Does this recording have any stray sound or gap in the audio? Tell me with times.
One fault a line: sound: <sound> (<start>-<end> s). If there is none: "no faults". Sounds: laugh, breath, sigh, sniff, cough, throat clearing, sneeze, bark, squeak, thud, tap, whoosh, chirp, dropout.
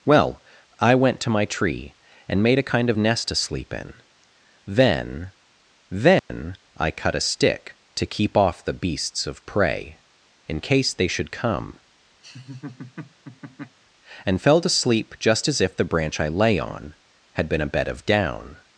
sound: dropout (6.2-6.3 s)
sound: laugh (12.2-13.8 s)